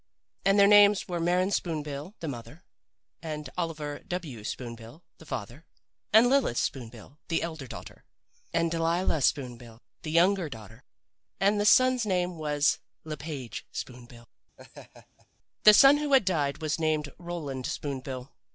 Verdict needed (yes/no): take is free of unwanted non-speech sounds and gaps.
no